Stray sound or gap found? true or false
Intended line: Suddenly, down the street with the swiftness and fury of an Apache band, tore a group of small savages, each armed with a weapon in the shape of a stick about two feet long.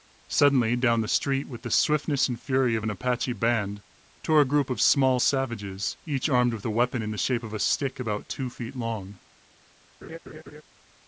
true